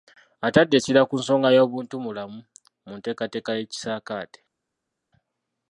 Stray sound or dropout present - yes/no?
no